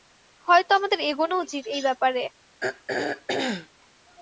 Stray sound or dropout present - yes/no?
yes